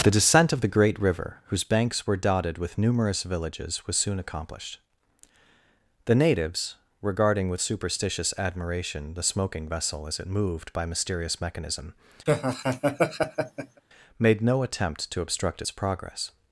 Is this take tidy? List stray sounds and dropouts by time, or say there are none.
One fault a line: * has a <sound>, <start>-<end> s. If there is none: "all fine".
* has a laugh, 12.3-13.8 s